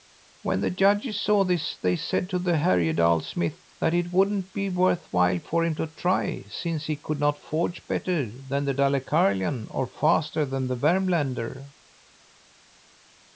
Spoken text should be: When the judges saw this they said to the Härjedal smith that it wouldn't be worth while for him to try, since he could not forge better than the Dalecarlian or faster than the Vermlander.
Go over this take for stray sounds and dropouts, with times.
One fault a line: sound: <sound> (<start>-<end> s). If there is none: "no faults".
no faults